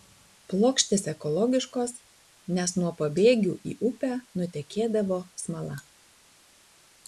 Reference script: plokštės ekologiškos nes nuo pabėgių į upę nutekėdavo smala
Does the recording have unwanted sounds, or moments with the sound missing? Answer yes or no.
no